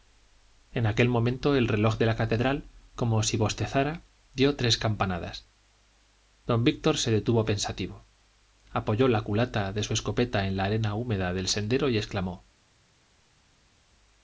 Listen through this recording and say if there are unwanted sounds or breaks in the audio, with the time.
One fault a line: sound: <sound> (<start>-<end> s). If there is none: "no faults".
no faults